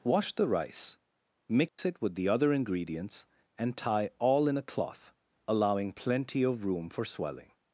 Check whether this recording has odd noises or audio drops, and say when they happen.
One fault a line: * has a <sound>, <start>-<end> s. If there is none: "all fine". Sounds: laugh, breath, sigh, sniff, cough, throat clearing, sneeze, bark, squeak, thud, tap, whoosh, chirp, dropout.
* has a dropout, 1.7-1.8 s